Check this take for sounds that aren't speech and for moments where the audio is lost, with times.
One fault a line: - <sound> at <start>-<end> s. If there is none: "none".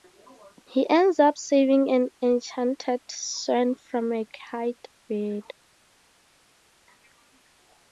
none